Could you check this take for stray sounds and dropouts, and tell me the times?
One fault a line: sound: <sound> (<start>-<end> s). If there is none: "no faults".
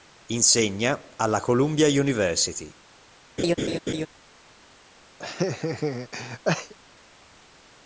sound: laugh (3.4-4.1 s)
sound: laugh (5.2-6.7 s)